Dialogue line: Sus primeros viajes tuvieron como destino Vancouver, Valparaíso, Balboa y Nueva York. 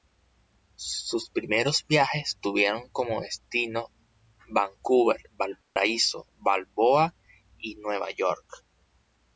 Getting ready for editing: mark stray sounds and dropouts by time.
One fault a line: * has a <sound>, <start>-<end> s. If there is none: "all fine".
* has a dropout, 5.6-5.8 s